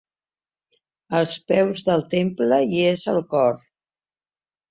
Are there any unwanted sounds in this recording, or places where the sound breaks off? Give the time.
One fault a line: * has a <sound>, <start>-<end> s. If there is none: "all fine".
all fine